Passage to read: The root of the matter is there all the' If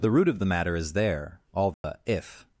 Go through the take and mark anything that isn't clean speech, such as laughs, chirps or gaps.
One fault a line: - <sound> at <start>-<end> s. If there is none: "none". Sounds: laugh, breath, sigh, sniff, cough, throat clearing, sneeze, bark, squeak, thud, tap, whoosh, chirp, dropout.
- dropout at 1.7-1.8 s